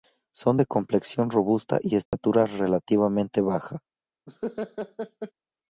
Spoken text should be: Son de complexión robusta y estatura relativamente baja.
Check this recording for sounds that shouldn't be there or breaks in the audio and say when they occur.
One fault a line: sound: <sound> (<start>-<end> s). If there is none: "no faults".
sound: dropout (2.1-2.1 s)
sound: laugh (4.3-5.3 s)